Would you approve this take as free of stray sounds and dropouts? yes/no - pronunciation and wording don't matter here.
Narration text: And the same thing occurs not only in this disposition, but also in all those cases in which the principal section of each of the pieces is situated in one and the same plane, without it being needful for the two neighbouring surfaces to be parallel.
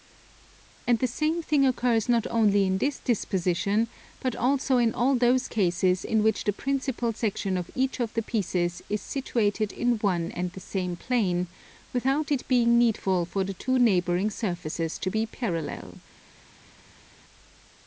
yes